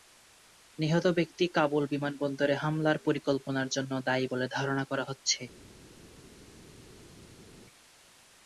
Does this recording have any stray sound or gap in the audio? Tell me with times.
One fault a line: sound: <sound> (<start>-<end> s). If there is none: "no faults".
no faults